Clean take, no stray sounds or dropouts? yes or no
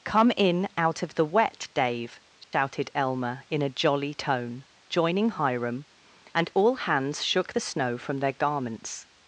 no